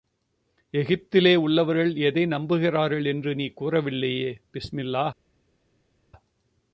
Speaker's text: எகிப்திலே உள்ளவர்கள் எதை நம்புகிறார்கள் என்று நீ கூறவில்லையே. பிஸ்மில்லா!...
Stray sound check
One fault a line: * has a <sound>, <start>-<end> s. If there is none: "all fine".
all fine